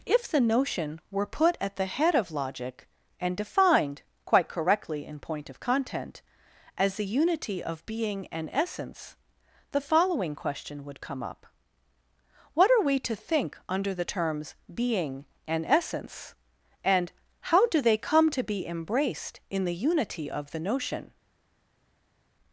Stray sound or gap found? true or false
false